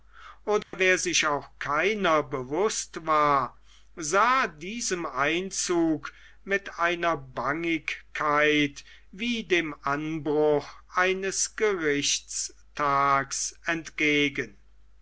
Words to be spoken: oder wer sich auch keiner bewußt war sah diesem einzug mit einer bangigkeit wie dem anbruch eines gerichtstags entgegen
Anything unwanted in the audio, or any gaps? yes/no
yes